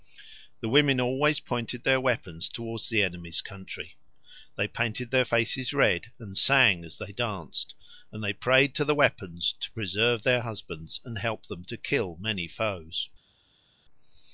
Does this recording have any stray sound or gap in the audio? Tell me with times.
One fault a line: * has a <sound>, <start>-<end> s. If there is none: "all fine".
all fine